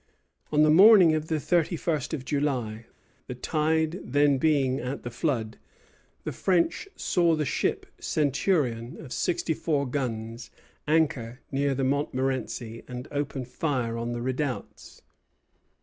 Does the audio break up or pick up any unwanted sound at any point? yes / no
no